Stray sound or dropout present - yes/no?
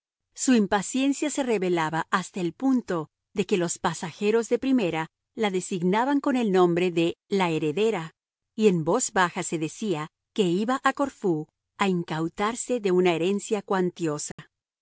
yes